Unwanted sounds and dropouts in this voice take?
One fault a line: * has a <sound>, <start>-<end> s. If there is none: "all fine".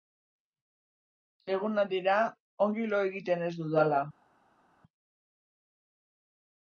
all fine